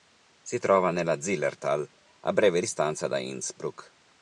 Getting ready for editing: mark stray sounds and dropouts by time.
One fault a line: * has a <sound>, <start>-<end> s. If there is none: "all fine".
all fine